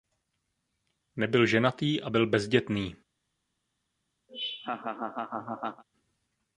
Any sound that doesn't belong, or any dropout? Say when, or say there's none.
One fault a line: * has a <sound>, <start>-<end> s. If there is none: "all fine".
* has a laugh, 4.3-5.8 s